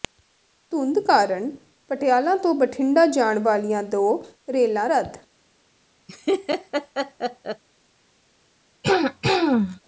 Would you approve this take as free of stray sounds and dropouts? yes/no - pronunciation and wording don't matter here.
no